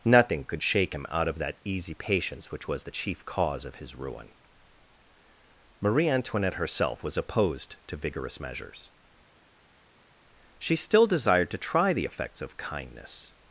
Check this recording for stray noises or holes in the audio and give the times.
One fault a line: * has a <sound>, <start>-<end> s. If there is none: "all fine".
all fine